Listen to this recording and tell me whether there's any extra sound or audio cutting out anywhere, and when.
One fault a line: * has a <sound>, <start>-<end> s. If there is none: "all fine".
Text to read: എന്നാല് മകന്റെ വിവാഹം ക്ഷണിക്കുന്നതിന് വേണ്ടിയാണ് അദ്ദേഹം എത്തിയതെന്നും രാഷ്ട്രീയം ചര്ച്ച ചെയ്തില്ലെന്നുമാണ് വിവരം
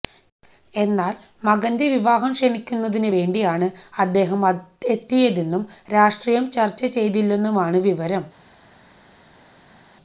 all fine